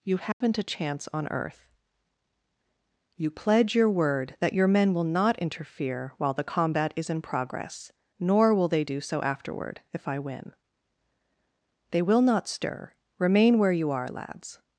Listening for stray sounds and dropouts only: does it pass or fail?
fail